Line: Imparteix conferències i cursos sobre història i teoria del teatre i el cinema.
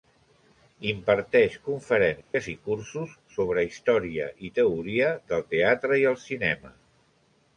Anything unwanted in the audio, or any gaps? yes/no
yes